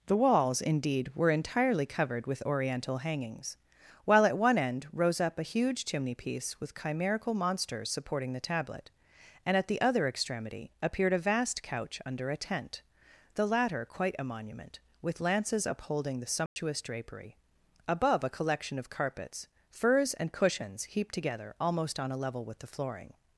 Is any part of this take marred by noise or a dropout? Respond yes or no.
yes